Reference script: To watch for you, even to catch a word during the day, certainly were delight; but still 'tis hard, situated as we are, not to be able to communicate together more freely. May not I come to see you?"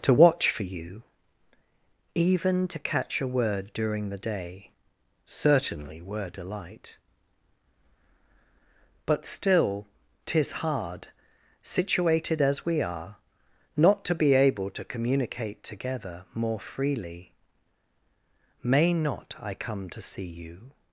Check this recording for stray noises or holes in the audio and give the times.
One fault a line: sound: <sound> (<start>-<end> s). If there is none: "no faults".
no faults